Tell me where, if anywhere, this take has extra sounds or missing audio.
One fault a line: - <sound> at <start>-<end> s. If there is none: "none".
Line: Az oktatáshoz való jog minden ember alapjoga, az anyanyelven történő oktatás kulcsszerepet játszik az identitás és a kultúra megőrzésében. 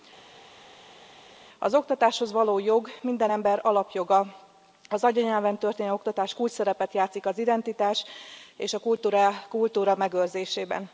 none